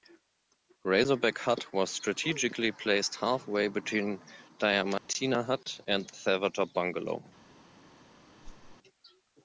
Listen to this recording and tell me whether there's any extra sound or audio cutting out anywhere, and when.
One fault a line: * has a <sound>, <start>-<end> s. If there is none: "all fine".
* has a dropout, 5.0-5.1 s
* has a whoosh, 8.4-8.8 s